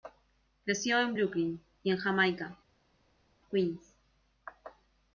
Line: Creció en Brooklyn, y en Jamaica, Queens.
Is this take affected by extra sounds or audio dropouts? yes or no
no